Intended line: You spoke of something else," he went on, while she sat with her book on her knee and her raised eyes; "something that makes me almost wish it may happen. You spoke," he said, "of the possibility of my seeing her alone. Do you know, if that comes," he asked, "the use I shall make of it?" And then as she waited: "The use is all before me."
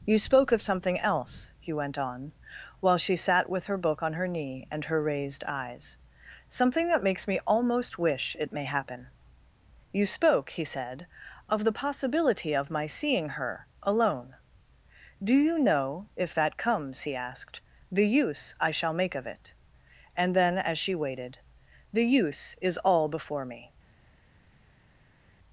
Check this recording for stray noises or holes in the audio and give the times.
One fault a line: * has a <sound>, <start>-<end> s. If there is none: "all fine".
all fine